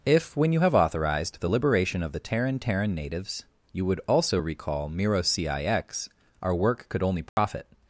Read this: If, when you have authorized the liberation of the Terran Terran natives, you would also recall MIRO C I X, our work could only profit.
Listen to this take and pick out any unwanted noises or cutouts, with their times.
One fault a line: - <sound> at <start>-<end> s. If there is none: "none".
- dropout at 7.3-7.4 s